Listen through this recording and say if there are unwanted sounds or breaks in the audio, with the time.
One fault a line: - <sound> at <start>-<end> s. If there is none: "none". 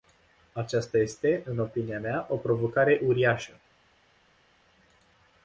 none